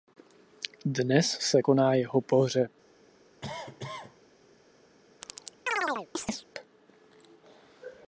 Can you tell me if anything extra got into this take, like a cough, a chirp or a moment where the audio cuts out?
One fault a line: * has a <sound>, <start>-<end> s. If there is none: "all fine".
* has a cough, 3.4-4.2 s
* has a chirp, 5.2-6.5 s